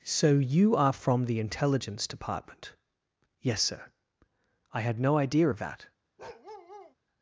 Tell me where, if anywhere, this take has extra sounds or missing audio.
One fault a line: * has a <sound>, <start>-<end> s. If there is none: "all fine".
* has a bark, 6.2-7.0 s